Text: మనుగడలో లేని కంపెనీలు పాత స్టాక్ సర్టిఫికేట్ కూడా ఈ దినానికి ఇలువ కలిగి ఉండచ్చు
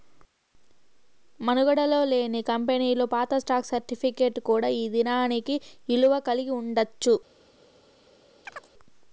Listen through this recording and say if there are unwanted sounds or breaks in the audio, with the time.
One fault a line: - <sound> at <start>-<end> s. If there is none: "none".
- chirp at 8.4-8.7 s